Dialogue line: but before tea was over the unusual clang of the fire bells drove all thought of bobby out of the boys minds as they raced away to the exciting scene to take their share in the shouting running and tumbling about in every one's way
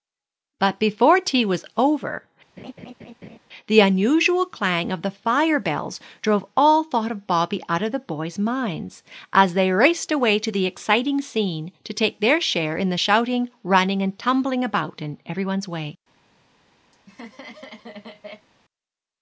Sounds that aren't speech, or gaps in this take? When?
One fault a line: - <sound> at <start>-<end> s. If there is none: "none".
- laugh at 2.6-3.4 s
- laugh at 16.9-18.5 s